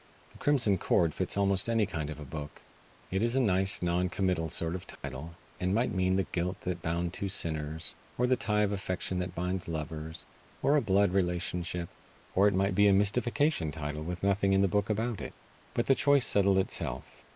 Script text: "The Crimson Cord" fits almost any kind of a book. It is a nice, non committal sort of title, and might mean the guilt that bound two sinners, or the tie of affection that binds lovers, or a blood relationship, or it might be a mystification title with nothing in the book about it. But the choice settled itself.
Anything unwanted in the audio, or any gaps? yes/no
yes